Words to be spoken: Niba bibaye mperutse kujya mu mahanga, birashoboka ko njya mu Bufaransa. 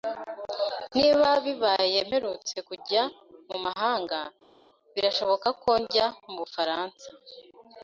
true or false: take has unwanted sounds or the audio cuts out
false